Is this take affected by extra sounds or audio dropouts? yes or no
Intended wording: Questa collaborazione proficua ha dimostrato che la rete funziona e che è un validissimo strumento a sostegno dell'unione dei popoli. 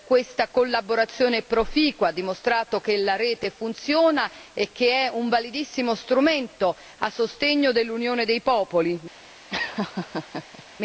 yes